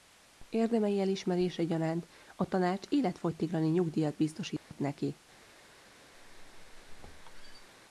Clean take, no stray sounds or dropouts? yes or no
no